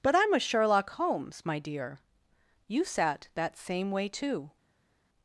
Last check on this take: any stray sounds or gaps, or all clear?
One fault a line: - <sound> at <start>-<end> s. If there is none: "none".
none